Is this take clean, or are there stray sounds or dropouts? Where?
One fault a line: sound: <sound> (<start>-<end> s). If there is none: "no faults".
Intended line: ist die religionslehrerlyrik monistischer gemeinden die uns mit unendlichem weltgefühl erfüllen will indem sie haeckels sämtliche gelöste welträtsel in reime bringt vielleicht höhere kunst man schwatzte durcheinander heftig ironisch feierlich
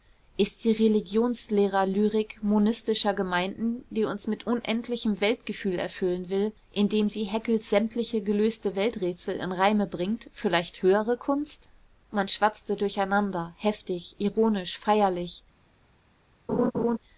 sound: laugh (16.5-17.0 s)